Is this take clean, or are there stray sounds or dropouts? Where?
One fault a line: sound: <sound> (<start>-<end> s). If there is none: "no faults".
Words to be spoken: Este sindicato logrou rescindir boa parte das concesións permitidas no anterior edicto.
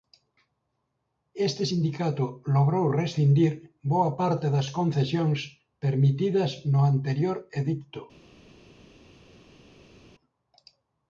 no faults